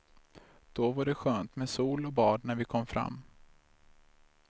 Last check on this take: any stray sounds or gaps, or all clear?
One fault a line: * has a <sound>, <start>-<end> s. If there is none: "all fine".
all fine